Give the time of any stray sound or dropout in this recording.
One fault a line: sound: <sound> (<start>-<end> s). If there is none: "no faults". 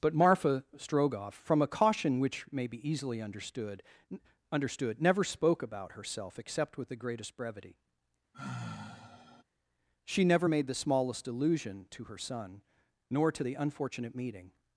sound: sigh (8.3-9.4 s)